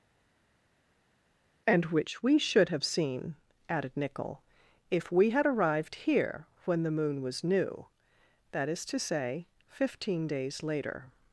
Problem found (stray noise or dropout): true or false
false